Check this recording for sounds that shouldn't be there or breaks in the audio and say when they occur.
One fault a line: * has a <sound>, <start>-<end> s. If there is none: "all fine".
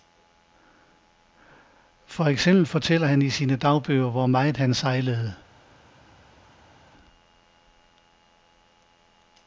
all fine